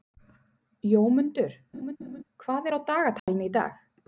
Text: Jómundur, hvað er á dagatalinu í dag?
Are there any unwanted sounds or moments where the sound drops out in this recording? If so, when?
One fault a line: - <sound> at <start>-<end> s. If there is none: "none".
- laugh at 1.7-2.2 s
- dropout at 3.2-3.3 s